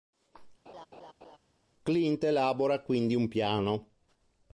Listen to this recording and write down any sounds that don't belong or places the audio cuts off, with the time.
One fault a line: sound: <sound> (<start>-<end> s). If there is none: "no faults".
sound: laugh (0.7-1.4 s)